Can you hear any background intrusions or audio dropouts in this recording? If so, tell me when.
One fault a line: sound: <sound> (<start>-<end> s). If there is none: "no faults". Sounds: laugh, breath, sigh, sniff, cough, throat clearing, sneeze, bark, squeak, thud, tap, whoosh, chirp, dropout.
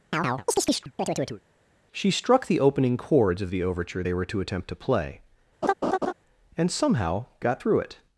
sound: chirp (0.1-1.4 s)
sound: laugh (5.6-6.1 s)